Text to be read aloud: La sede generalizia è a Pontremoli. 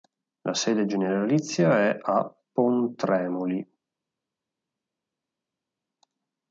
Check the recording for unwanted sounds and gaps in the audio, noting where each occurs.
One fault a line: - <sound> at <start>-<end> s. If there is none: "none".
none